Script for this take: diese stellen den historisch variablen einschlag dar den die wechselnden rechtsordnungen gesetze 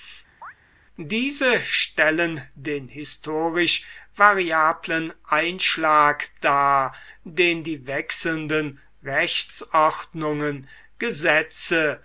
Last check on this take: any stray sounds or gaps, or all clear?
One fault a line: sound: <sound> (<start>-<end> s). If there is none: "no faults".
sound: chirp (0.4-0.5 s)